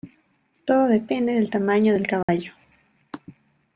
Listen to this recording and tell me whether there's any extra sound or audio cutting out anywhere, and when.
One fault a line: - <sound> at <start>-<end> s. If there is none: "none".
- dropout at 2.2-2.3 s